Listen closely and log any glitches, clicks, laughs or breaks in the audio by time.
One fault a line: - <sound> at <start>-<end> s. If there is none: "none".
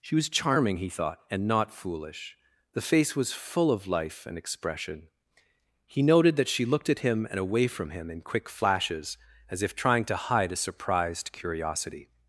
none